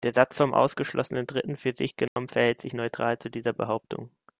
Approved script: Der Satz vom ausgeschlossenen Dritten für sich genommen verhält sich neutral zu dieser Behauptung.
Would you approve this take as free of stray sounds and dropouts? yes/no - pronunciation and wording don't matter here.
no